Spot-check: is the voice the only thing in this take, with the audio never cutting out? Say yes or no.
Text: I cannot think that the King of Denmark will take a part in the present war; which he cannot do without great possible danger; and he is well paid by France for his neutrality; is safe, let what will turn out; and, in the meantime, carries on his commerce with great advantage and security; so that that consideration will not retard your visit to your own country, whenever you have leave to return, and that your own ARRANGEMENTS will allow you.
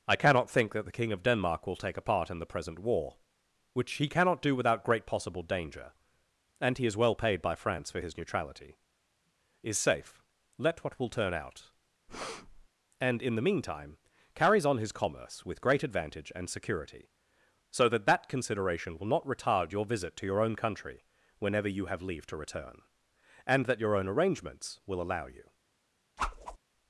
no